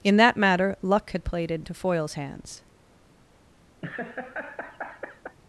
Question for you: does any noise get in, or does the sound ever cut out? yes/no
yes